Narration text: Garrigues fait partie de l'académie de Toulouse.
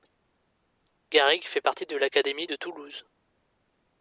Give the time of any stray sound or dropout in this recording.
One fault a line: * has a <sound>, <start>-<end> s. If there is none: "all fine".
all fine